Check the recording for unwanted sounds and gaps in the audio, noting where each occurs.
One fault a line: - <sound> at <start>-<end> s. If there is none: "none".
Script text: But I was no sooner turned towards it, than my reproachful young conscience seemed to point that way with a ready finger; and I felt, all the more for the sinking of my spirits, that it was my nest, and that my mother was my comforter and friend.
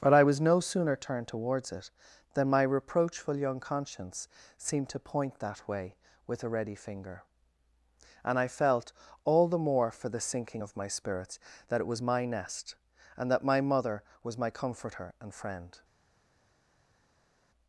none